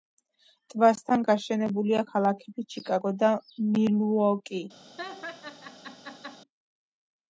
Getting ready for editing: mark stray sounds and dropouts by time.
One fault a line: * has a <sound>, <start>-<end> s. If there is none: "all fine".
* has a laugh, 5.0-6.4 s